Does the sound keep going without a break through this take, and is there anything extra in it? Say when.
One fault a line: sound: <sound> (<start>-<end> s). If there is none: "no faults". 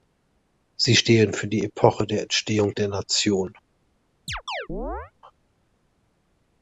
sound: chirp (4.3-5.1 s)